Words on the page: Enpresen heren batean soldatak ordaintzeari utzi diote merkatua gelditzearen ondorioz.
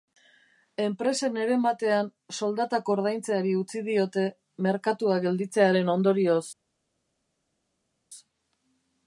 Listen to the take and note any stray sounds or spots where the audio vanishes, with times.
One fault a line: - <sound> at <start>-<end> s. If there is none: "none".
none